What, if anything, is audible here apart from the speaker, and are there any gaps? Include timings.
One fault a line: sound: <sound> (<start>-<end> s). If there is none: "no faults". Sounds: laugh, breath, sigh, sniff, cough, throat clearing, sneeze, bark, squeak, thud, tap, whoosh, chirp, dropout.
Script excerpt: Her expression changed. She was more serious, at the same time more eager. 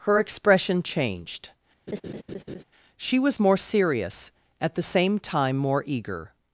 sound: laugh (1.9-2.6 s)